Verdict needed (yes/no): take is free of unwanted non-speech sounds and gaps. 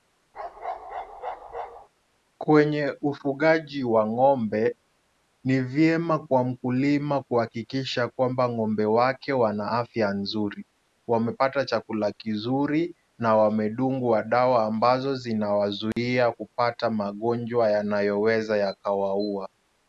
no